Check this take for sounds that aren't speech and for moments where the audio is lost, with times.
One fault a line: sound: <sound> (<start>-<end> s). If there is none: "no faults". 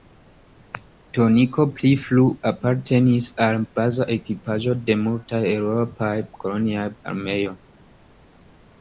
no faults